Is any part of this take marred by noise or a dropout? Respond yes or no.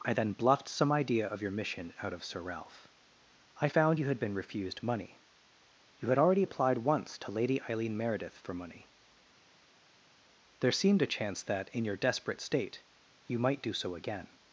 no